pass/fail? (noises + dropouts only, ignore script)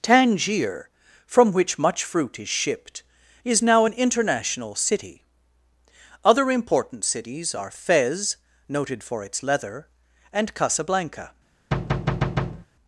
fail